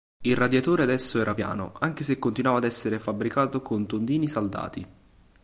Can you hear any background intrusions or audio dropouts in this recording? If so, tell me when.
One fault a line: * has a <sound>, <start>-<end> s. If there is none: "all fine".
all fine